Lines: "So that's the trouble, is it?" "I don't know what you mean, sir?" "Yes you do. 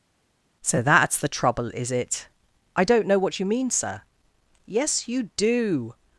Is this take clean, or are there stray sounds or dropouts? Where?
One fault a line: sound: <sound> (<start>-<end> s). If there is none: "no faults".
no faults